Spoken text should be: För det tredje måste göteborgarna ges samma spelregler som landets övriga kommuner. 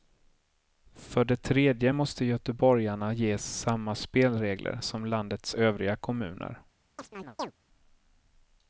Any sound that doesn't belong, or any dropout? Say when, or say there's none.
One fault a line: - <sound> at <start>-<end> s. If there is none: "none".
- chirp at 7.0-7.5 s